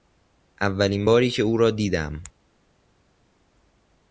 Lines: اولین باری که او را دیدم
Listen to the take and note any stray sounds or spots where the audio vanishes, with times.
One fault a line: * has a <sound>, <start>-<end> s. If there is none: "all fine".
all fine